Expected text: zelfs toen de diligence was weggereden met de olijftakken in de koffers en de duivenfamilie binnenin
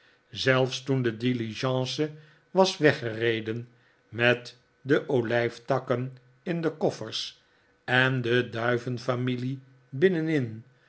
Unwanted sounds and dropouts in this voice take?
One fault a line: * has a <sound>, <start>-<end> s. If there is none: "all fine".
all fine